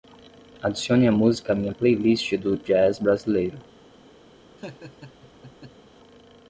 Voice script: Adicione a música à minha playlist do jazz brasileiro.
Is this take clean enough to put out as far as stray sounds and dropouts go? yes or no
no